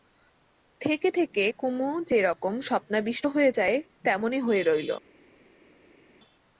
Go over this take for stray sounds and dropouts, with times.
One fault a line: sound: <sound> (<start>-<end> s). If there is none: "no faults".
no faults